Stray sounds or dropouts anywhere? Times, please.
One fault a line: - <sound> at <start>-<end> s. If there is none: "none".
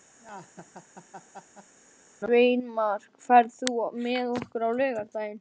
- laugh at 0.2-1.7 s